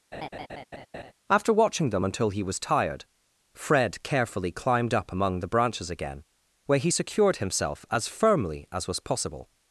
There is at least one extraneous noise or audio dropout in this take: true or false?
true